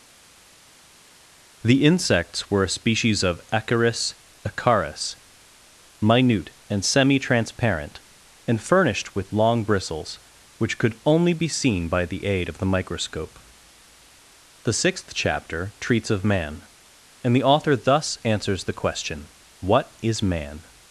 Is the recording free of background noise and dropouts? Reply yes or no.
yes